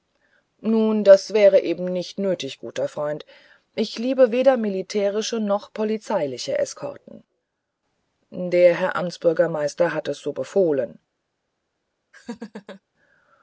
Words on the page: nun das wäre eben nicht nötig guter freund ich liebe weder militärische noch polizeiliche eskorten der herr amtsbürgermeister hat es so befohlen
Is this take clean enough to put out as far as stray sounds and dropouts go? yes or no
no